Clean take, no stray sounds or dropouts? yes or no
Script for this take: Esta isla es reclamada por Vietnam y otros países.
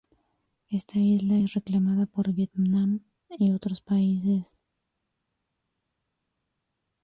yes